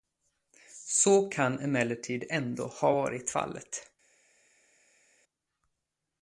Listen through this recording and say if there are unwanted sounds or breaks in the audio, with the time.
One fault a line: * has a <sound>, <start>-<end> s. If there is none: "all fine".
all fine